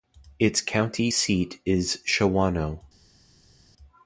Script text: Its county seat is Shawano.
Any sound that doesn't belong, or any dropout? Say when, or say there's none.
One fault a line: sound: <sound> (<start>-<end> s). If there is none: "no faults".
no faults